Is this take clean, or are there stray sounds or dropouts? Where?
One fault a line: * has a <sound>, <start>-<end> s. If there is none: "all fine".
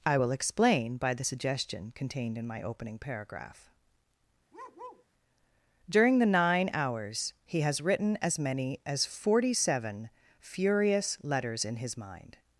* has a bark, 4.5-5.1 s